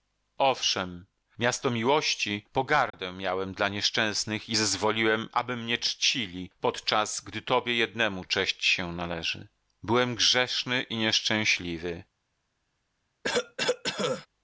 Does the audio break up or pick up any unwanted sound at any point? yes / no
yes